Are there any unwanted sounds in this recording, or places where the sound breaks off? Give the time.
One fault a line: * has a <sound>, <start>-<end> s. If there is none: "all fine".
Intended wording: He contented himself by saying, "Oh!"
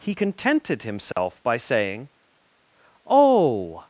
* has a dropout, 1.1-1.2 s